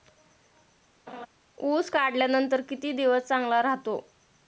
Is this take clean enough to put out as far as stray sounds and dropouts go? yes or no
no